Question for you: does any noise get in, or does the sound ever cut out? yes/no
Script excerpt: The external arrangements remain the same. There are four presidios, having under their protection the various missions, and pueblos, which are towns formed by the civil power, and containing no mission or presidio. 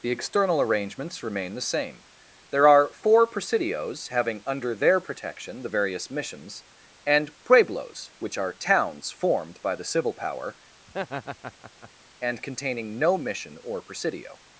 yes